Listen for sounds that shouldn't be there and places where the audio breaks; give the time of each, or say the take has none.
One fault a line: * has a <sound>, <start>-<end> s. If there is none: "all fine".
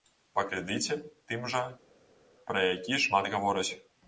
all fine